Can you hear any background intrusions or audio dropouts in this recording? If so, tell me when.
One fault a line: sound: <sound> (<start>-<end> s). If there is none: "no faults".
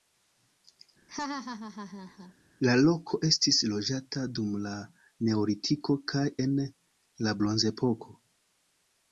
sound: laugh (1.1-2.3 s)